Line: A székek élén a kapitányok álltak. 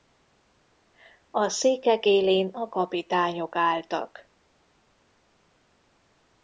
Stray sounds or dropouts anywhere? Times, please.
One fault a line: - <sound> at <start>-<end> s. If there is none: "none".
none